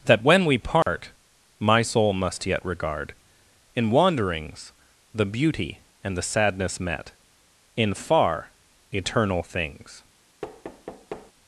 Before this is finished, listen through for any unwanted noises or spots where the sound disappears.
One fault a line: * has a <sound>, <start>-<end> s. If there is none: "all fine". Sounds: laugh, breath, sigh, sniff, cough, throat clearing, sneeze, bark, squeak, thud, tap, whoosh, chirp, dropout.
* has a dropout, 0.8-0.9 s
* has a thud, 10.4-11.3 s